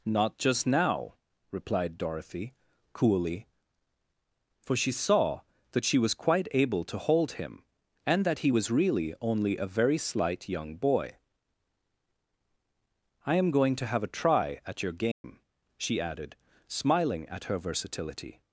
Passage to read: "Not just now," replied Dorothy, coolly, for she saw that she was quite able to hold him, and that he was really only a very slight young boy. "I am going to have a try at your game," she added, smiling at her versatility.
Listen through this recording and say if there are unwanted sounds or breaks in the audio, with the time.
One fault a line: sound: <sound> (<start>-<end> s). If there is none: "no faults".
sound: dropout (15.1-15.2 s)